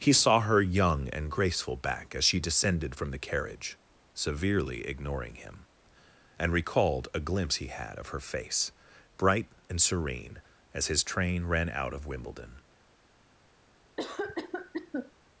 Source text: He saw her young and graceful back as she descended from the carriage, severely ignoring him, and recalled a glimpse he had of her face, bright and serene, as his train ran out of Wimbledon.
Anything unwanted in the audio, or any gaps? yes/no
yes